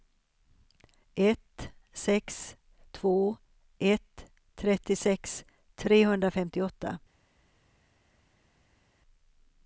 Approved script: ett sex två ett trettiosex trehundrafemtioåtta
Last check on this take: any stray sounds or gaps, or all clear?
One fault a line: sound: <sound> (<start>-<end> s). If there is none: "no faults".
no faults